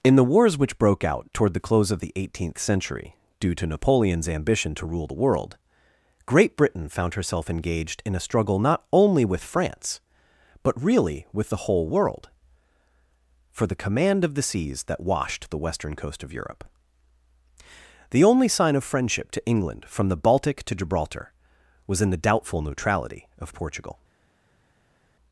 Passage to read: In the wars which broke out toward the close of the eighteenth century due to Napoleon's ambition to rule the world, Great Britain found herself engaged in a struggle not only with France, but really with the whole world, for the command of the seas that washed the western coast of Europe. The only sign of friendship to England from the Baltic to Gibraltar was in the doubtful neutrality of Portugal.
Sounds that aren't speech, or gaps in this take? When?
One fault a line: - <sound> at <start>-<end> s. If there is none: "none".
none